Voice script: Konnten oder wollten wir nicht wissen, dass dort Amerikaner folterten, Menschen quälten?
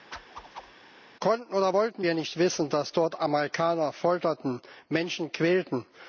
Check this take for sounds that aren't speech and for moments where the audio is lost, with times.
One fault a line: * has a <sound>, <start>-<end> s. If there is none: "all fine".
* has a whoosh, 0.1-0.7 s